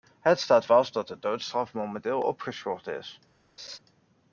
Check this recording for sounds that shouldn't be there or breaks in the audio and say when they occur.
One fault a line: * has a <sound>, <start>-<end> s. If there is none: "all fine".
* has a laugh, 3.6-3.8 s